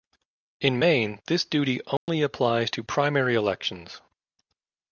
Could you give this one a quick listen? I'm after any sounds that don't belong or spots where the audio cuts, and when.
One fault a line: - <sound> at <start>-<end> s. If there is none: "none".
- dropout at 2.0-2.1 s